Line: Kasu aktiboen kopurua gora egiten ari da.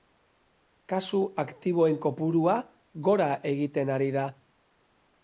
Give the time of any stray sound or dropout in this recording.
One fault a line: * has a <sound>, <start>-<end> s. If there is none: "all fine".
all fine